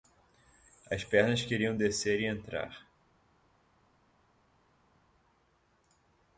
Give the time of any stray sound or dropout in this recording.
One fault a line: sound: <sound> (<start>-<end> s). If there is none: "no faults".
no faults